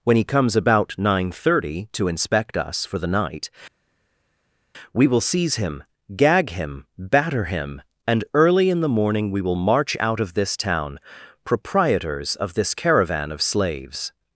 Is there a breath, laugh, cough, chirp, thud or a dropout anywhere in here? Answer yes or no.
no